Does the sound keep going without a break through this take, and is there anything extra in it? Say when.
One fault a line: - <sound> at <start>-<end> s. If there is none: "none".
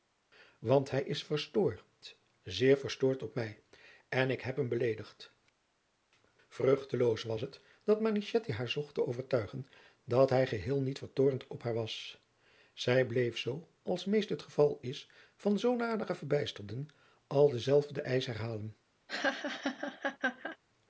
- laugh at 19.1-20.6 s